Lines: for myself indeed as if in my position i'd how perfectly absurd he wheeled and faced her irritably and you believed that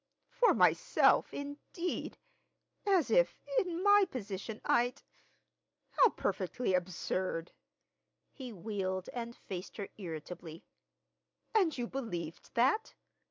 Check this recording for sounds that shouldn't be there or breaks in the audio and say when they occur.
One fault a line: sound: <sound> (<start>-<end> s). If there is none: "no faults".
no faults